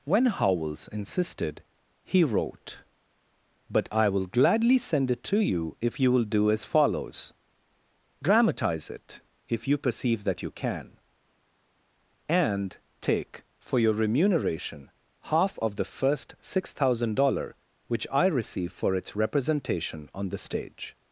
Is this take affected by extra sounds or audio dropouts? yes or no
no